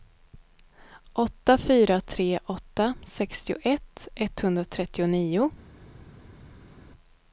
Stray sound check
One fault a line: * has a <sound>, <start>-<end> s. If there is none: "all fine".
all fine